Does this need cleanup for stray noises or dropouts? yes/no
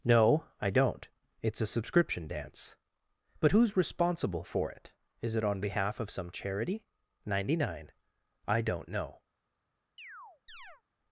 yes